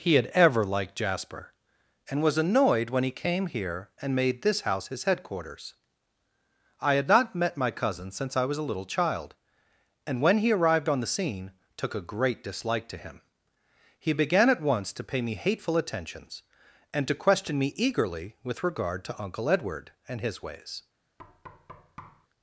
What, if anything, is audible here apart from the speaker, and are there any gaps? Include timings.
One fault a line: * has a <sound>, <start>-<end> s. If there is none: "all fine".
* has a thud, 21.2-22.3 s